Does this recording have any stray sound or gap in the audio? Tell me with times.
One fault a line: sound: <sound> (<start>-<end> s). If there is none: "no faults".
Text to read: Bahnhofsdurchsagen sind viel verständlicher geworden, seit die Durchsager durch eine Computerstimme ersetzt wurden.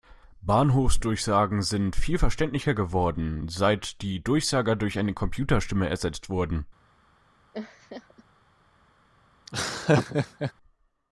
sound: laugh (7.5-8.2 s)
sound: laugh (9.5-10.5 s)